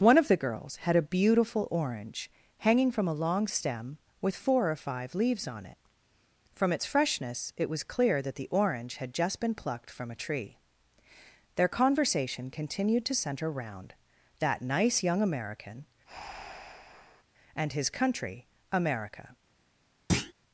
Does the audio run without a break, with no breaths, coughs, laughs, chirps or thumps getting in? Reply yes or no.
no